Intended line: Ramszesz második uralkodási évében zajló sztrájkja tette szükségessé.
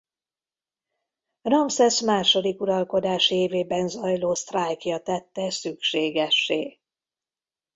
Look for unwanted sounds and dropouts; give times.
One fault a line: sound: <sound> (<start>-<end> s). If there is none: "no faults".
no faults